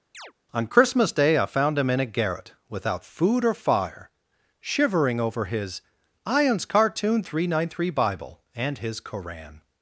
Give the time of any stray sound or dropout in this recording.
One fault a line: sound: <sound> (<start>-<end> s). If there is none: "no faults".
sound: chirp (0.1-0.3 s)